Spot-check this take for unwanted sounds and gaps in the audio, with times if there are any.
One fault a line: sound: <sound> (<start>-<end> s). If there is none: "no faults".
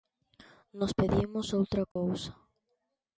sound: dropout (1.9-2.0 s)